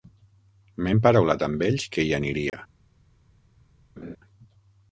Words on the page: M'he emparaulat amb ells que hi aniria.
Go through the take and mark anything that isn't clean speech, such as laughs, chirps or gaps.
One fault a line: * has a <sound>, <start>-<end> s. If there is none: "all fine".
* has a dropout, 2.5-2.5 s
* has a laugh, 4.0-4.2 s